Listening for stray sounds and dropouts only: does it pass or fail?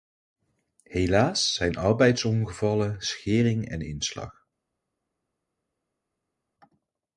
pass